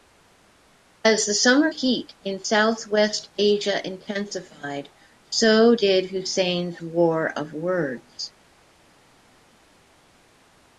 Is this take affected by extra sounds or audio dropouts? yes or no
no